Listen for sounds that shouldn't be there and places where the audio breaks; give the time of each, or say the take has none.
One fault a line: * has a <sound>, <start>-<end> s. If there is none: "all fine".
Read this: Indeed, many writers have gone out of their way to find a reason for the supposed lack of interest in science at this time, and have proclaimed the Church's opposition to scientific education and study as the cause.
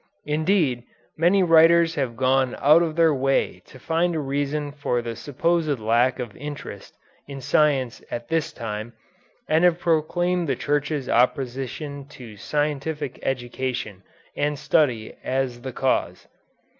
all fine